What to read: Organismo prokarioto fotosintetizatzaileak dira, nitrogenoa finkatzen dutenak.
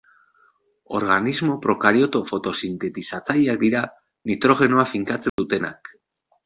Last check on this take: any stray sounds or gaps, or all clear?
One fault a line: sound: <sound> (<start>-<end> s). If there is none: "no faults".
sound: dropout (5.3-5.4 s)